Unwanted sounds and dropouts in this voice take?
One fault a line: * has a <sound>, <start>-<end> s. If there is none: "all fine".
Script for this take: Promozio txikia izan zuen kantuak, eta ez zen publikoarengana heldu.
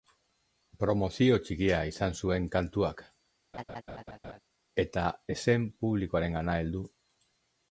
* has a laugh, 3.5-4.4 s